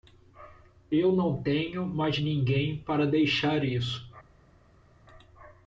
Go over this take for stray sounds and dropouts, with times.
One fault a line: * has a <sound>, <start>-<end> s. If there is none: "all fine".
all fine